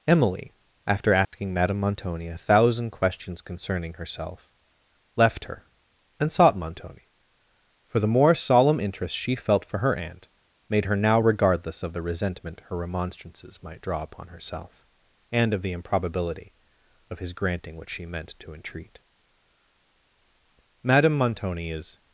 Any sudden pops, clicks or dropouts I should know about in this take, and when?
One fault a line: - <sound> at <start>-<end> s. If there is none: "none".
- dropout at 1.2-1.3 s